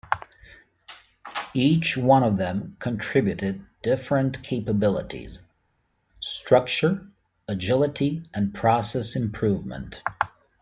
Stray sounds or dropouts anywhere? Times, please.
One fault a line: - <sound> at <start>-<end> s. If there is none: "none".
none